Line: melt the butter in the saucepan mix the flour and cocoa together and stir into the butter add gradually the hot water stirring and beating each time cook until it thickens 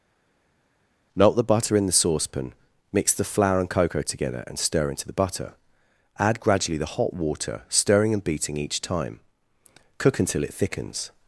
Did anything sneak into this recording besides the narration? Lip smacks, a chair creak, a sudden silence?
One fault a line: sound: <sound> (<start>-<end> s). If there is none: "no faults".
no faults